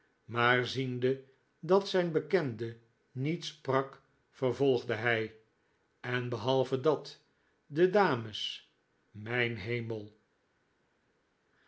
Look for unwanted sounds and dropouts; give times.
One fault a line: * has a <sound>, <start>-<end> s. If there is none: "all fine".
all fine